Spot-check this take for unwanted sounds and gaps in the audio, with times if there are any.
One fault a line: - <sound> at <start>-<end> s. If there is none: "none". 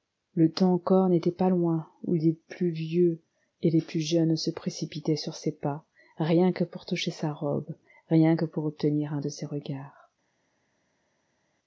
none